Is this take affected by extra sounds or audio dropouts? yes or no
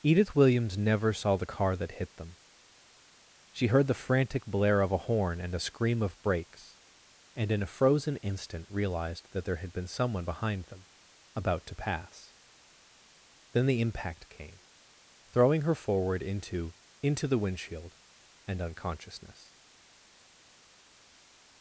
no